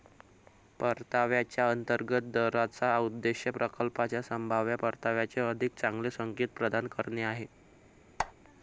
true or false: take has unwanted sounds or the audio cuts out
true